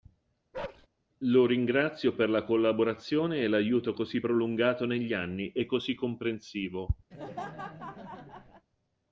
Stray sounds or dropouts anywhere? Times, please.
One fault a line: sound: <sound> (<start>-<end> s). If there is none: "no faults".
sound: bark (0.5-0.9 s)
sound: laugh (7.1-8.7 s)